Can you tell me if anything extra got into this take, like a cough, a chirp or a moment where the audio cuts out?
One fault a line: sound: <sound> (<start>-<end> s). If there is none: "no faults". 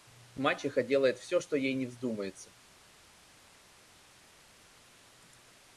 no faults